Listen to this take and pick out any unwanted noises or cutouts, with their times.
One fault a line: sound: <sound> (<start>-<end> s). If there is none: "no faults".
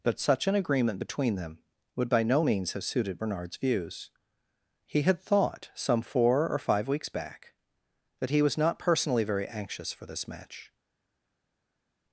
no faults